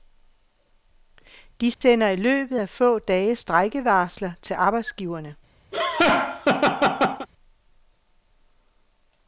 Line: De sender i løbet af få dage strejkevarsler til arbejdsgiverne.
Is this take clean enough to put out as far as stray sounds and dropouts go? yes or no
no